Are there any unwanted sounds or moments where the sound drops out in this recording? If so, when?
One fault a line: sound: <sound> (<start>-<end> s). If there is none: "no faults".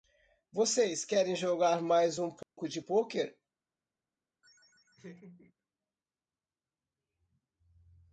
sound: dropout (2.4-2.6 s)
sound: laugh (4.4-5.5 s)